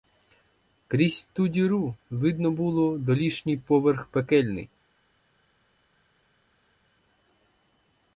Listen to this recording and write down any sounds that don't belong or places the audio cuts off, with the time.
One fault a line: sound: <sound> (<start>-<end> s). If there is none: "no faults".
no faults